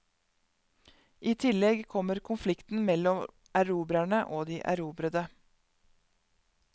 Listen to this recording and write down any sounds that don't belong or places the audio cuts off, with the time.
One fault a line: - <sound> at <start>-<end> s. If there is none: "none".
none